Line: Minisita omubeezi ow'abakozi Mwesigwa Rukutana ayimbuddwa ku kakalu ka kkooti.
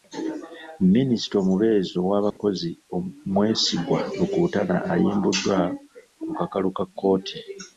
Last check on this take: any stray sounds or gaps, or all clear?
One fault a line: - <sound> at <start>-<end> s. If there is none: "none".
- dropout at 2.3-2.4 s